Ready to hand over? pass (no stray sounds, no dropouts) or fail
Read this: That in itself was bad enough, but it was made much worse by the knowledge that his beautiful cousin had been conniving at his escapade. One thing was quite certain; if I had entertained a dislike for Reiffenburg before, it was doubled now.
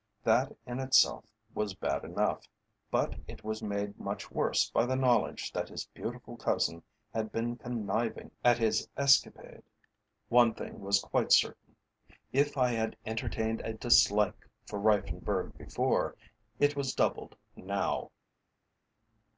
pass